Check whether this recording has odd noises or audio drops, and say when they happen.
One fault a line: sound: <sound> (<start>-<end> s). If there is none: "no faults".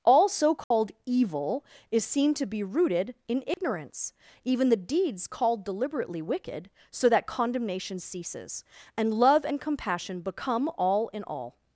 sound: dropout (0.6-0.7 s)
sound: dropout (3.5-3.6 s)